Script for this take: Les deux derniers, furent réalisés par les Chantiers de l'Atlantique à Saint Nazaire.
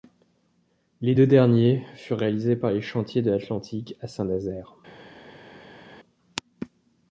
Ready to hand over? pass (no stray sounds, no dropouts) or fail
pass